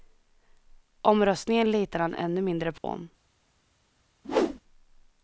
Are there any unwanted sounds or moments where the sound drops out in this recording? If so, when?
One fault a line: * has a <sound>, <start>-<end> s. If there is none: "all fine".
* has a dropout, 2.8-2.8 s
* has a whoosh, 4.2-4.6 s